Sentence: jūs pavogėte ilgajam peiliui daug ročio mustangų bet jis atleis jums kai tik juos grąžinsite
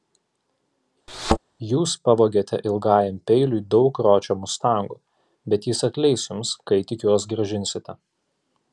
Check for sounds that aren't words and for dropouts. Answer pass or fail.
fail